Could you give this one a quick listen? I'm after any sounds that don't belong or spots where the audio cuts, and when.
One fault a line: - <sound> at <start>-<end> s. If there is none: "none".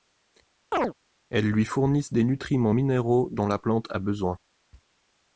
- chirp at 0.7-0.9 s